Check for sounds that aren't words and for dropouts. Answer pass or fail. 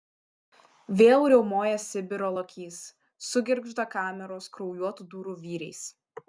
pass